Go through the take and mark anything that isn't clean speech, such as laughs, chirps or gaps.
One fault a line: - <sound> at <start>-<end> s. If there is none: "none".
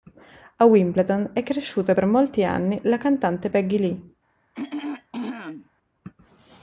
- throat clearing at 4.5-5.7 s